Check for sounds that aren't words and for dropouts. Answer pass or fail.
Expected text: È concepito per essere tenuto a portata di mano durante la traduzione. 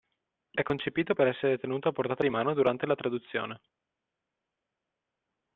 pass